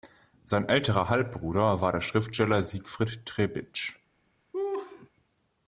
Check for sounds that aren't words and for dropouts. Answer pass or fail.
fail